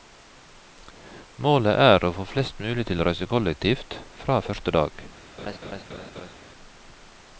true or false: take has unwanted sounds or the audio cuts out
true